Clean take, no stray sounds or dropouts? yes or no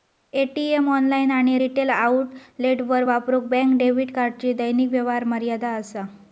yes